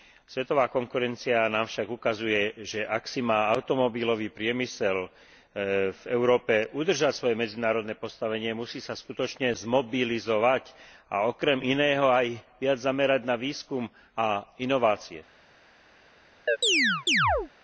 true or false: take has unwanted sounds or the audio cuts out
true